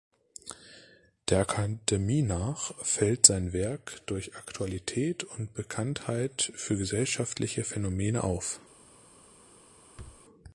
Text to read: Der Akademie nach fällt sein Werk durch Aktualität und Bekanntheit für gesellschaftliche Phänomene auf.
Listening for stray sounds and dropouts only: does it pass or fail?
fail